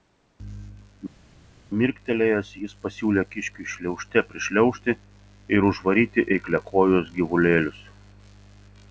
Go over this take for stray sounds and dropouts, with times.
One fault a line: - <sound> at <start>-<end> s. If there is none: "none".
none